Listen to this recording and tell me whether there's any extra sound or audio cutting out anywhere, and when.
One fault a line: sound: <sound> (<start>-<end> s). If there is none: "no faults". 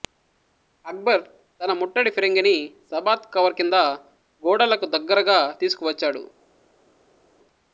no faults